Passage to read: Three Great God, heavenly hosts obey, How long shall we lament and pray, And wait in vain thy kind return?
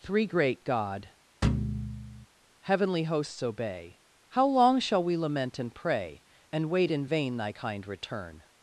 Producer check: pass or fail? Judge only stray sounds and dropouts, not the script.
fail